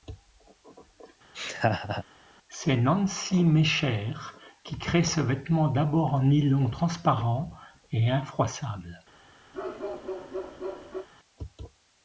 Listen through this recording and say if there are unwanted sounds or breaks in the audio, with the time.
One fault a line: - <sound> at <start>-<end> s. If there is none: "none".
- laugh at 1.3-2.0 s
- bark at 9.5-11.1 s